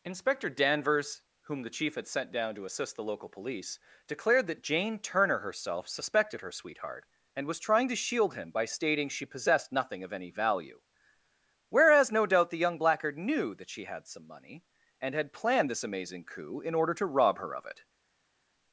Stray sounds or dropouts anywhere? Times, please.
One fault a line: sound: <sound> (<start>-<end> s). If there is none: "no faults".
no faults